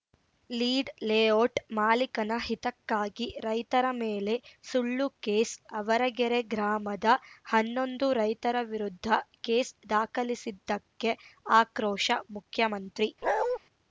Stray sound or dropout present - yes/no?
yes